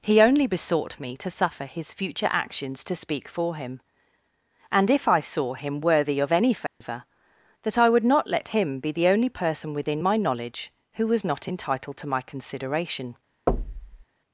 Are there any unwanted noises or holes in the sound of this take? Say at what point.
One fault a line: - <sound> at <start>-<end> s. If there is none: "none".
- dropout at 6.7-6.8 s
- thud at 13.5-14.0 s